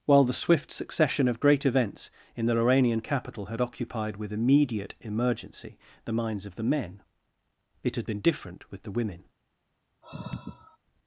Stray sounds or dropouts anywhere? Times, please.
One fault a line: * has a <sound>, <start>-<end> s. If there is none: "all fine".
* has a sigh, 10.0-10.8 s